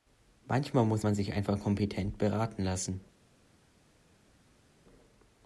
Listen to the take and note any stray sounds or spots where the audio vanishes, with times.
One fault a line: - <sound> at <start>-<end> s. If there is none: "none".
none